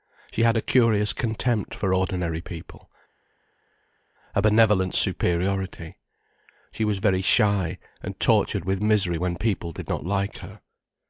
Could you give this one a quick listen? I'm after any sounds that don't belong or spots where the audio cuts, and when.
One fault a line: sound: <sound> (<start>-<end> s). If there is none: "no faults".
no faults